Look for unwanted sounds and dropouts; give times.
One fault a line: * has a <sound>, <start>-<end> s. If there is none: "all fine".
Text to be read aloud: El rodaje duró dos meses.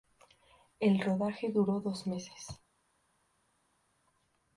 all fine